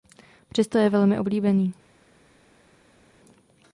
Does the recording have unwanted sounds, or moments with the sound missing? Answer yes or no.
no